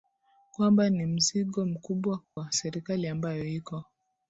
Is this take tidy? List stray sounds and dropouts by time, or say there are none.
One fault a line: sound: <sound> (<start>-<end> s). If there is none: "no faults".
sound: dropout (2.2-2.4 s)